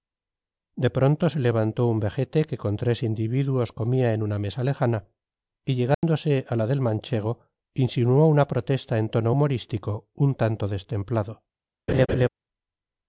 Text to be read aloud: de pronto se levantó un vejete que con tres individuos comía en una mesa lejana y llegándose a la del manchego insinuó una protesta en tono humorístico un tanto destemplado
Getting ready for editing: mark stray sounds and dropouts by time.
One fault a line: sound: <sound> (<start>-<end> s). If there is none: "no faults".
sound: dropout (5.9-6.0 s)
sound: laugh (11.9-12.3 s)